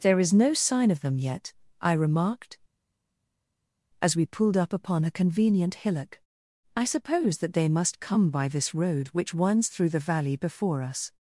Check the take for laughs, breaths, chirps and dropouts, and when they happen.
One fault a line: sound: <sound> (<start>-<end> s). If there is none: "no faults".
no faults